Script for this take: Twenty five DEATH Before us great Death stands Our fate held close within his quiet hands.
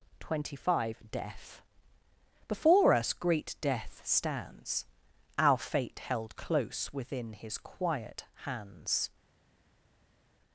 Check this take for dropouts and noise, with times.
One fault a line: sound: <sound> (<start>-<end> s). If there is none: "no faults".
no faults